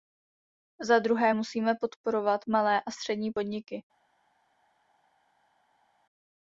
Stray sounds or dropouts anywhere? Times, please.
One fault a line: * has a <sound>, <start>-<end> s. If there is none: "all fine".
all fine